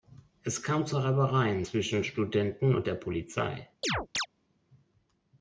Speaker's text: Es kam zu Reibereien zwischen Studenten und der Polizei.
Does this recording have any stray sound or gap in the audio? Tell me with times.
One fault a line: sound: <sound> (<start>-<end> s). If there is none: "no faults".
sound: chirp (3.8-4.3 s)